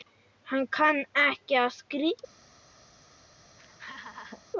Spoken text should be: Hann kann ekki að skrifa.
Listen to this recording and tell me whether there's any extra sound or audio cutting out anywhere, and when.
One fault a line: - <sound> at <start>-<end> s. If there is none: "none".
- laugh at 3.5-4.4 s